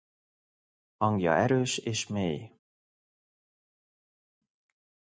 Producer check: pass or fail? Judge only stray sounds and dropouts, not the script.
pass